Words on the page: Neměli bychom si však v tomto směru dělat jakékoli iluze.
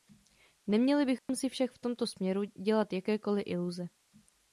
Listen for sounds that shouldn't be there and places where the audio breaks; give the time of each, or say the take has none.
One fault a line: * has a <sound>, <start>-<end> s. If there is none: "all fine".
* has a dropout, 1.2-1.3 s